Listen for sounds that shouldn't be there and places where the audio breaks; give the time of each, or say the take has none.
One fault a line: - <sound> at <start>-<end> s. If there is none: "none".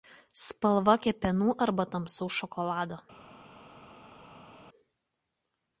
none